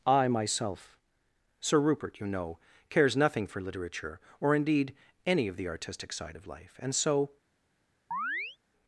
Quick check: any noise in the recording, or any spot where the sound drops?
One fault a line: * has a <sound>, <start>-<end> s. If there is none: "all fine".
* has a chirp, 8.1-8.6 s